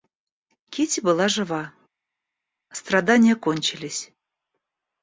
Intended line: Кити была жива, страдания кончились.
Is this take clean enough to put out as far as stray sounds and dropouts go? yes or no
yes